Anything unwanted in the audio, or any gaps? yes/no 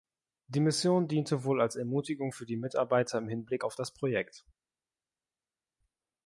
no